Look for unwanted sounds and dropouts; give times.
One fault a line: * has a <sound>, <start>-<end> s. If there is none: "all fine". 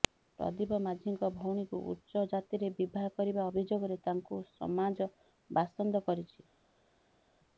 all fine